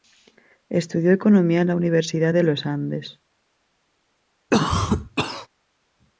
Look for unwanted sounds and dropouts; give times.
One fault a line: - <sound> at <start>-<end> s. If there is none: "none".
- cough at 4.5-5.5 s